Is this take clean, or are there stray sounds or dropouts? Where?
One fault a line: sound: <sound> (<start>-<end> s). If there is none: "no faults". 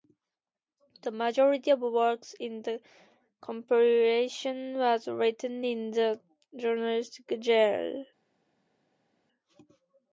no faults